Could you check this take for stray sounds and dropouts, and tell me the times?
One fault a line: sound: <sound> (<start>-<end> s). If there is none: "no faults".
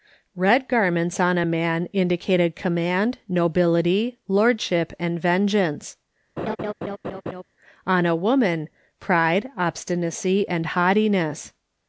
sound: laugh (6.4-7.4 s)